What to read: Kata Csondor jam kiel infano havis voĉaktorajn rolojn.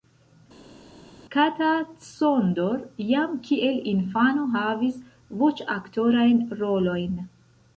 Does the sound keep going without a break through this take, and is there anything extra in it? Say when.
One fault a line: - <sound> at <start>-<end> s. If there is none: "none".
none